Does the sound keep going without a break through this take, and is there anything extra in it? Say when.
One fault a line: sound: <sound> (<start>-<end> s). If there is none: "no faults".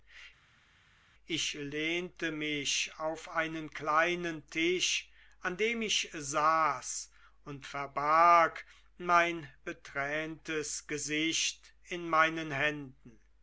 no faults